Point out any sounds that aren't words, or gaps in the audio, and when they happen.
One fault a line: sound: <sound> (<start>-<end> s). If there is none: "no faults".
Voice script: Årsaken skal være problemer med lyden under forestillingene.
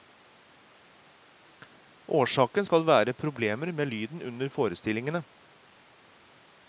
no faults